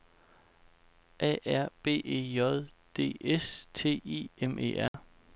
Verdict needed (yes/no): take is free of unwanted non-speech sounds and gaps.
no